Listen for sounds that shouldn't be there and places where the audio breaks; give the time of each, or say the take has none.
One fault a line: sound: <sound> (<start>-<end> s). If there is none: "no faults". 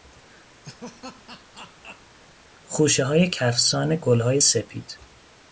sound: laugh (0.6-2.2 s)